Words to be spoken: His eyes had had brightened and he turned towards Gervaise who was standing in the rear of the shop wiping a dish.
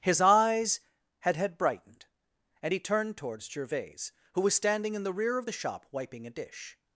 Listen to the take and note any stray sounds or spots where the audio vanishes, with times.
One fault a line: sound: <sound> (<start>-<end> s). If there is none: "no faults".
no faults